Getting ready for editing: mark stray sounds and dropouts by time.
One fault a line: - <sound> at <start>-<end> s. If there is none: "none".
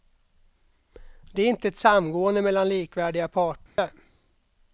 - dropout at 3.7-3.8 s